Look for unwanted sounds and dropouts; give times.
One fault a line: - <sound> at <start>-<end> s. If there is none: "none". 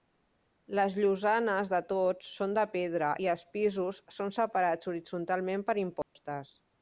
- dropout at 6.0-6.2 s